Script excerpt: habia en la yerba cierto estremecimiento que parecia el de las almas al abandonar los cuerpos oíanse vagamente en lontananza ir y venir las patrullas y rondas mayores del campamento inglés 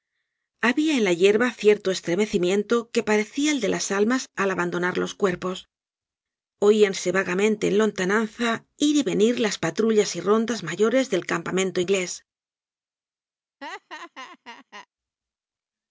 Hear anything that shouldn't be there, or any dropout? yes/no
yes